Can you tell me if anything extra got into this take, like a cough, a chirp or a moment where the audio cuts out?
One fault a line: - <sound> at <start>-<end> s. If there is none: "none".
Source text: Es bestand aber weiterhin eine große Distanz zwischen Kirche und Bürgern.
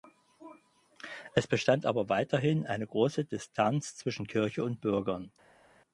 none